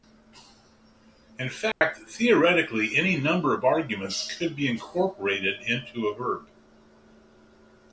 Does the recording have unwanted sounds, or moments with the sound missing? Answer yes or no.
yes